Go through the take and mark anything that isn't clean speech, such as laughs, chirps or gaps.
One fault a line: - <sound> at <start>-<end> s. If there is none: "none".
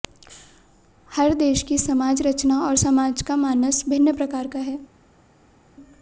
none